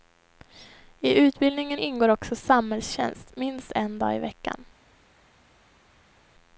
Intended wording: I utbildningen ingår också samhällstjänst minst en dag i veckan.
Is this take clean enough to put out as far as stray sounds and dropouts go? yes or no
yes